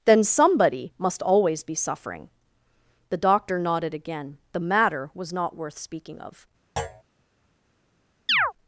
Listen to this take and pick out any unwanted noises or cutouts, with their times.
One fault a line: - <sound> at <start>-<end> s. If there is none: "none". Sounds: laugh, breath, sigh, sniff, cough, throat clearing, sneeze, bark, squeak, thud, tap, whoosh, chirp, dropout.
- thud at 6.8-7.0 s
- chirp at 8.3-8.5 s